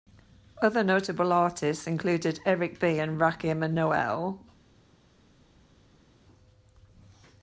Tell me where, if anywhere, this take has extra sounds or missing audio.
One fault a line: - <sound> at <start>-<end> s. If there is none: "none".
none